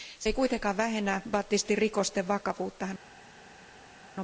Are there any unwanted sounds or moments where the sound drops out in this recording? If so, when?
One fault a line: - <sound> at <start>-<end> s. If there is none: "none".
none